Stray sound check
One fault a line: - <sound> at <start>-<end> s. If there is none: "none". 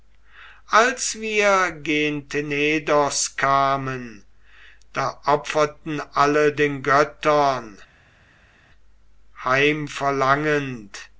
none